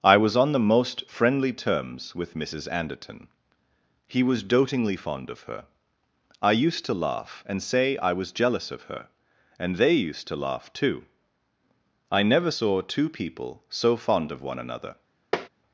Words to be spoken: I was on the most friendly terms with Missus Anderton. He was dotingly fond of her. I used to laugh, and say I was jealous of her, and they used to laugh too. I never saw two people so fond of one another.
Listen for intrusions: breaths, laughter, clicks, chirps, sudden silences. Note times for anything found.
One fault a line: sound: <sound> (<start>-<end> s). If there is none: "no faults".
sound: tap (15.3-15.5 s)